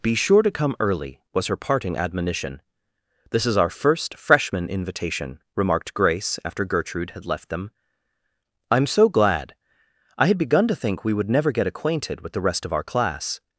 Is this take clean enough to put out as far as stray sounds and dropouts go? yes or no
yes